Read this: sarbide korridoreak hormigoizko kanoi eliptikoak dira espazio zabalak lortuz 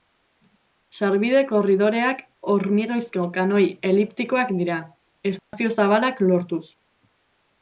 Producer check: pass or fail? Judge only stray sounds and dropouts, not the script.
fail